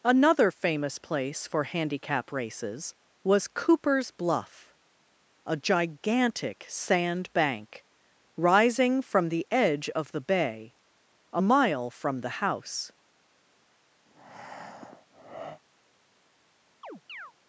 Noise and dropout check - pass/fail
fail